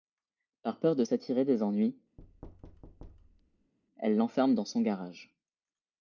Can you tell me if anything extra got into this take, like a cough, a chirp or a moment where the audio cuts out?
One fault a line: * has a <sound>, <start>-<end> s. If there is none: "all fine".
* has a thud, 2.2-3.7 s